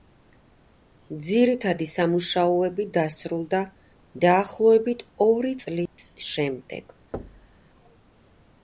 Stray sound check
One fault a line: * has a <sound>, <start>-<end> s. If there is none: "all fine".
* has a dropout, 5.9-6.0 s
* has a thud, 7.1-7.6 s